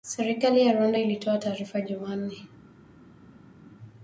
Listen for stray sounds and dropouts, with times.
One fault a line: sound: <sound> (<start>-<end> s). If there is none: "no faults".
no faults